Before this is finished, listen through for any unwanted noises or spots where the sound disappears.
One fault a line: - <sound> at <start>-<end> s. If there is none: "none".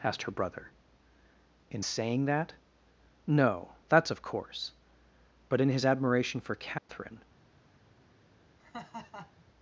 - dropout at 6.8-6.9 s
- laugh at 8.6-9.4 s